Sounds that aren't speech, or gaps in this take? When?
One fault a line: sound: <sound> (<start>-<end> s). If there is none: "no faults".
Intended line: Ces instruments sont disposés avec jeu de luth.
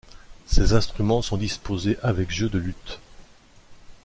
no faults